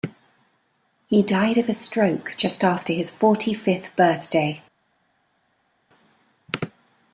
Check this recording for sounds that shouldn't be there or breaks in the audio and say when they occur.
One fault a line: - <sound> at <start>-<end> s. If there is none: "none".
none